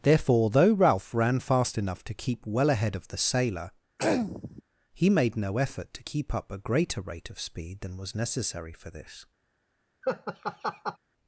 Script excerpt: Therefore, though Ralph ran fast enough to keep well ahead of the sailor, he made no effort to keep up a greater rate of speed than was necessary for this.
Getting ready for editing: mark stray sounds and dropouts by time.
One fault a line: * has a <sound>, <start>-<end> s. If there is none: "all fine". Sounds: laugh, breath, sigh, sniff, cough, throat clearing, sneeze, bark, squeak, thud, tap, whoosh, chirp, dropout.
* has a throat clearing, 4.0-4.6 s
* has a laugh, 10.0-11.0 s